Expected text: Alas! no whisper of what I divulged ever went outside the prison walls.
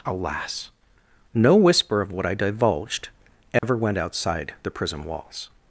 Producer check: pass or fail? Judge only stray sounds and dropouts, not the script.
fail